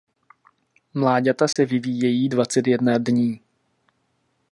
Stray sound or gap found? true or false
true